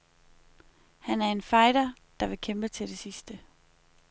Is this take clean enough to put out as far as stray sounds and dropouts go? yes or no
yes